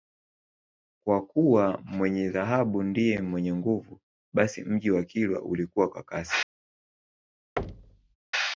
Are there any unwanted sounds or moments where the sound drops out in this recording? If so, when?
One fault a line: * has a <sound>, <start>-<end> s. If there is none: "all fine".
* has a thud, 7.6-8.2 s